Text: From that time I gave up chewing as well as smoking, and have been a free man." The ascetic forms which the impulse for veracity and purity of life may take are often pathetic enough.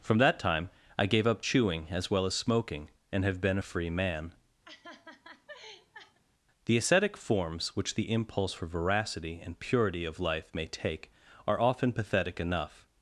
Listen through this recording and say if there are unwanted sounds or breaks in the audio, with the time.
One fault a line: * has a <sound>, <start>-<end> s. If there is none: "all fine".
* has a laugh, 4.6-6.2 s